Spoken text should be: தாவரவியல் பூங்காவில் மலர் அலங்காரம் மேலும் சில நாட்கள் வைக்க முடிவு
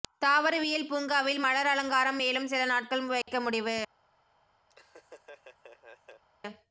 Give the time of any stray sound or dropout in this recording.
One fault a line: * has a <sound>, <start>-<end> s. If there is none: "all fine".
* has a dropout, 3.2-3.3 s
* has a laugh, 4.7-6.2 s